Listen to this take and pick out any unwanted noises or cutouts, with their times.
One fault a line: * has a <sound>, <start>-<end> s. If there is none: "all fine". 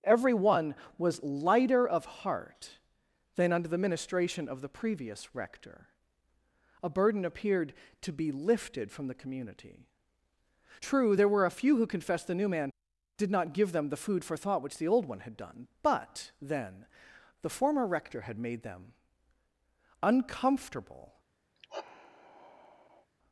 * has a sigh, 21.5-23.1 s